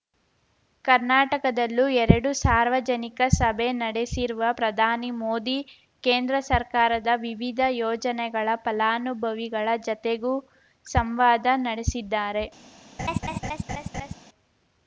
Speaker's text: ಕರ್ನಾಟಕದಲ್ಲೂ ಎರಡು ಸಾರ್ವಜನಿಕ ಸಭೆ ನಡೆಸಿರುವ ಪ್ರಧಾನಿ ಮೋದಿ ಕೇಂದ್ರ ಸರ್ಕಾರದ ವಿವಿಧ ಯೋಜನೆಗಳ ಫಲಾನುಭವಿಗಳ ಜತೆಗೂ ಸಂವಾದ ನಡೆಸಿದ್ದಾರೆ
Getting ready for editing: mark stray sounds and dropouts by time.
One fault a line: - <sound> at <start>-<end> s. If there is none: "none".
- laugh at 13.0-14.1 s